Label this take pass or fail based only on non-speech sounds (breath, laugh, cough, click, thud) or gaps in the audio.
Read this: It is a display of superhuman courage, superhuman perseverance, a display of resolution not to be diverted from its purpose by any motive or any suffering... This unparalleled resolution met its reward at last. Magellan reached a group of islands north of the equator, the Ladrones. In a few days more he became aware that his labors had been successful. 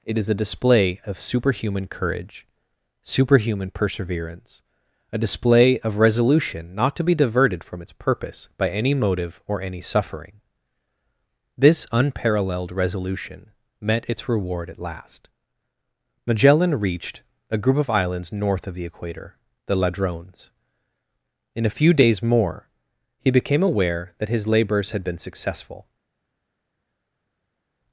pass